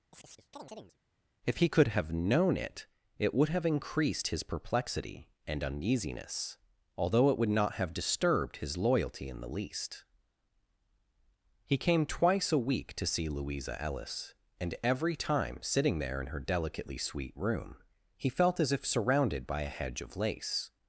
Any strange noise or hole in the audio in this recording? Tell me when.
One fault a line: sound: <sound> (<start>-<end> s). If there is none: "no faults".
sound: chirp (0.1-1.0 s)